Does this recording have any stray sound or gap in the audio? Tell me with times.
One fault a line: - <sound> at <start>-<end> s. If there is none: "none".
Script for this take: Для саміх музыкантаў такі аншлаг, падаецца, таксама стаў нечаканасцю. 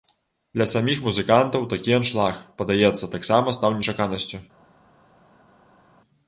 none